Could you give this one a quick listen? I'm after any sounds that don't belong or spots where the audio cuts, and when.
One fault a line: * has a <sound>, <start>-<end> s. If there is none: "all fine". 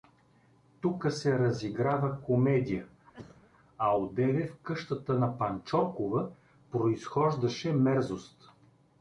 * has a cough, 3.1-3.5 s